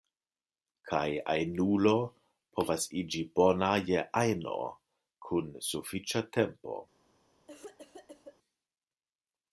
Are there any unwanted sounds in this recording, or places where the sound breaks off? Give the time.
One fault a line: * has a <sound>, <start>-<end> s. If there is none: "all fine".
* has a cough, 7.5-8.4 s